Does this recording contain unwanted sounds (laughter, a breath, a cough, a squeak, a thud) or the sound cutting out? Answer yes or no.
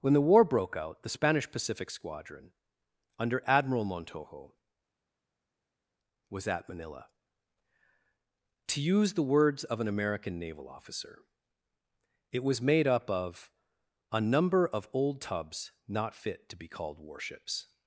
no